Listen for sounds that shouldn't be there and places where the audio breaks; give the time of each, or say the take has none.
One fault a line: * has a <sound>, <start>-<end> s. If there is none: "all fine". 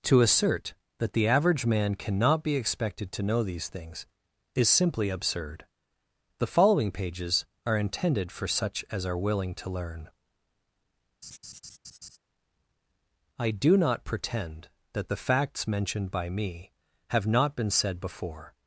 * has a laugh, 11.2-12.2 s